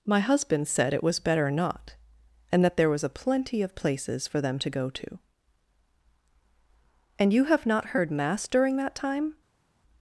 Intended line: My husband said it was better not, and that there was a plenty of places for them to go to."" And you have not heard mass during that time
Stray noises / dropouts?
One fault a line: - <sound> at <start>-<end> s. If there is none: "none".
none